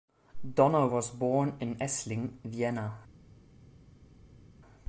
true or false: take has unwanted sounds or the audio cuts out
false